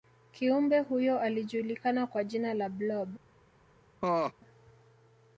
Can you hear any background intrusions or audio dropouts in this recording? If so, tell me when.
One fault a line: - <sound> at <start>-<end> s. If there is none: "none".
- laugh at 4.0-4.3 s